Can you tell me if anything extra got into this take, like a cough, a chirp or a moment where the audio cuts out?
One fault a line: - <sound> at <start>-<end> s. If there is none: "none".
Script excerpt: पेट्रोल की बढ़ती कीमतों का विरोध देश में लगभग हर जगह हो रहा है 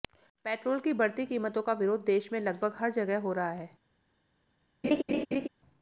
- laugh at 4.8-5.5 s